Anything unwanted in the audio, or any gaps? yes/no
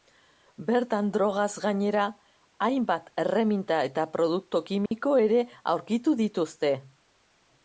yes